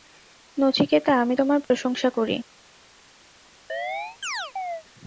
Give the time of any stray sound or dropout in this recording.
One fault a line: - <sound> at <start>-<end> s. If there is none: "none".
- dropout at 1.6-1.7 s
- chirp at 3.7-4.8 s